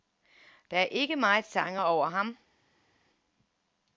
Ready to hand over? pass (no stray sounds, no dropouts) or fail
pass